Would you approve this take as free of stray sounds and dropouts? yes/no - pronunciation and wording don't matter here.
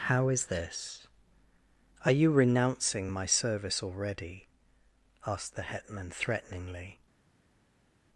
yes